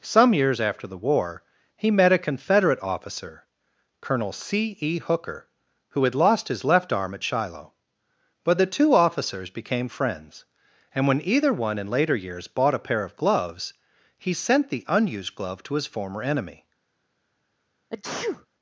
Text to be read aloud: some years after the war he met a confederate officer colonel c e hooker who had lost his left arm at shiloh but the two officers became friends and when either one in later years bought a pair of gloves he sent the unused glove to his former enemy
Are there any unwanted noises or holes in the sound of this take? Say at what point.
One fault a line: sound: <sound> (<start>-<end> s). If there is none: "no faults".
sound: sneeze (17.9-18.5 s)